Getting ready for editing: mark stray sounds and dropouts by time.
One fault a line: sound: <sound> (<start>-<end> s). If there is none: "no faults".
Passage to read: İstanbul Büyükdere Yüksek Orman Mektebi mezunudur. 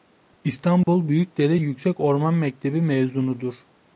sound: dropout (0.8-0.9 s)